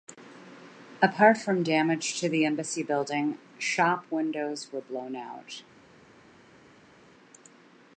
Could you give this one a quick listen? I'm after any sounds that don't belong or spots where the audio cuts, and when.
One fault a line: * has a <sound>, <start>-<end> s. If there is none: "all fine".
all fine